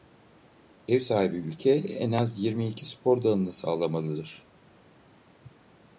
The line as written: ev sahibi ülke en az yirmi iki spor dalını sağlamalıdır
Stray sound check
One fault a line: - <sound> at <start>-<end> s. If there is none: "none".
none